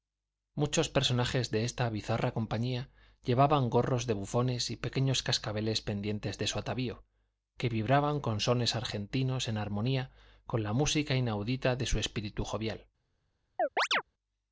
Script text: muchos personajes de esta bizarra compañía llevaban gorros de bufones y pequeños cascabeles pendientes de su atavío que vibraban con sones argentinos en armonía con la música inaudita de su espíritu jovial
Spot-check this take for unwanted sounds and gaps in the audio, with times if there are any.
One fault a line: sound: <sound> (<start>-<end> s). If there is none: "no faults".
sound: chirp (13.6-14.0 s)